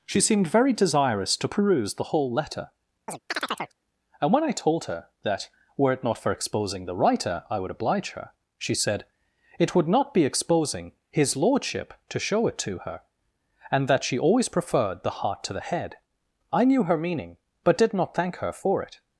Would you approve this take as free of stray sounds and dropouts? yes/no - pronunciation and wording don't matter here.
no